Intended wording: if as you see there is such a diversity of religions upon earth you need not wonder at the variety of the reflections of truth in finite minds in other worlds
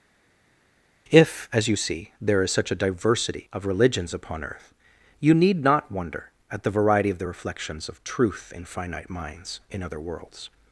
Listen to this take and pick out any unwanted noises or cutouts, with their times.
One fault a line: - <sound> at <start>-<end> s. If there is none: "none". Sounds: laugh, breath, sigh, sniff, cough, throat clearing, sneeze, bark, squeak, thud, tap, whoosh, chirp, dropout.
none